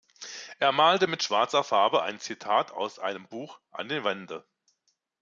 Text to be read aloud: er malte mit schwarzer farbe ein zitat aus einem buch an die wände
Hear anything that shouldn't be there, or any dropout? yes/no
no